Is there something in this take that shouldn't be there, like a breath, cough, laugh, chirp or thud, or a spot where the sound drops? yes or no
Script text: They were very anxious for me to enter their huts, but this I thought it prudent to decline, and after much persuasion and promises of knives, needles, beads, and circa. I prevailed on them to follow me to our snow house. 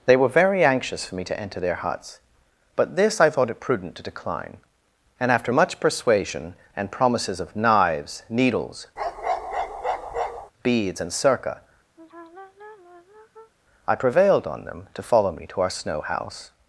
yes